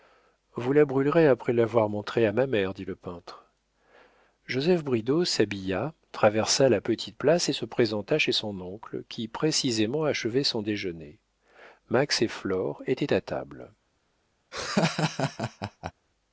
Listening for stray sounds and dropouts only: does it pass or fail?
fail